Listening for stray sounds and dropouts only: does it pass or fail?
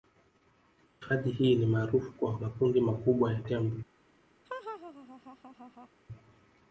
fail